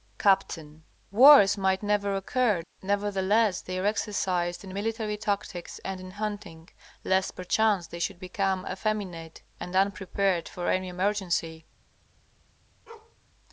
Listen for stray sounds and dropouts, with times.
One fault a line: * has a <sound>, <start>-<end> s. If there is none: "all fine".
* has a bark, 12.9-13.2 s